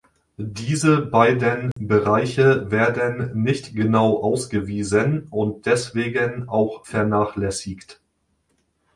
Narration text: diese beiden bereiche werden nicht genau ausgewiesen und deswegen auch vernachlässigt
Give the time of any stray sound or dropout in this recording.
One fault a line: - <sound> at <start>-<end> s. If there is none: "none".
- dropout at 1.7-1.8 s